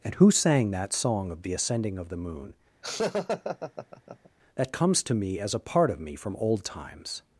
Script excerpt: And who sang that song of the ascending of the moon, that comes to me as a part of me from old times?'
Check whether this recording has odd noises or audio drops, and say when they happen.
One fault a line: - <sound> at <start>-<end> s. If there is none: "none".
- laugh at 2.8-4.3 s